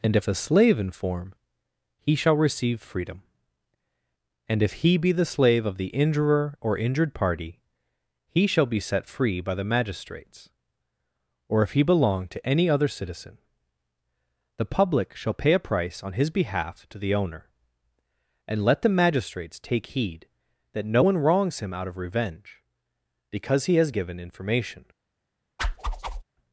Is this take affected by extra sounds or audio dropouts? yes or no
yes